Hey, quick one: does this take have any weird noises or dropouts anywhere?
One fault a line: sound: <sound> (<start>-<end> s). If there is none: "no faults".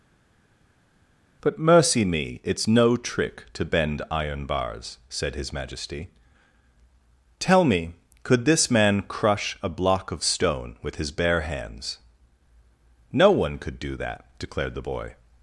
no faults